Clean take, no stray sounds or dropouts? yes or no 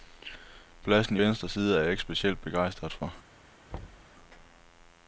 no